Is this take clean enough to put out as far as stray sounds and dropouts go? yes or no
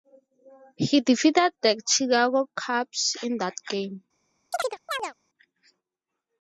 no